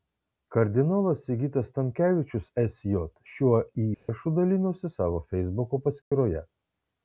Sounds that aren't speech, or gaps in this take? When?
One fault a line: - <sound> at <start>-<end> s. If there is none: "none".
- dropout at 3.9-4.1 s
- dropout at 6.0-6.1 s